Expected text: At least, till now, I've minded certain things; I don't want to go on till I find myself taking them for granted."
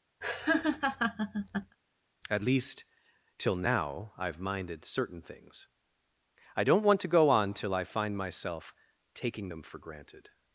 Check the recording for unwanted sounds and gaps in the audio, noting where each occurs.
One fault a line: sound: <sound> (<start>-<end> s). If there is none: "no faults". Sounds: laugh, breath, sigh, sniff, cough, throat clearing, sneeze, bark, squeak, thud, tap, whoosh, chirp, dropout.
sound: laugh (0.2-1.8 s)